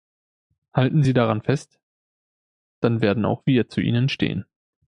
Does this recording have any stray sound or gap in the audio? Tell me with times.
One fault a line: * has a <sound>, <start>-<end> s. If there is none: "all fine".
all fine